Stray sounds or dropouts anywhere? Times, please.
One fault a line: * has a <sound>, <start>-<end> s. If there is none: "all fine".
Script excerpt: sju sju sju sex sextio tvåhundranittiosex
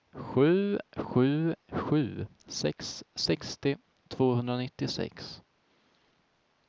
all fine